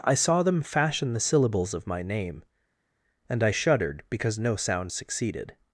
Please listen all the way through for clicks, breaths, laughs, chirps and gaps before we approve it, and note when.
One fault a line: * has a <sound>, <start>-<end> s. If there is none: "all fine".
all fine